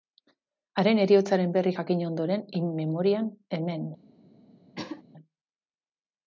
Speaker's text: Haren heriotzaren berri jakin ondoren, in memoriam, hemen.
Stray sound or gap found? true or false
true